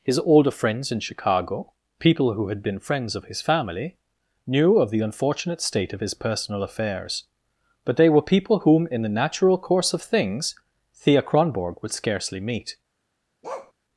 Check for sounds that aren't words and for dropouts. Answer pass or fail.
fail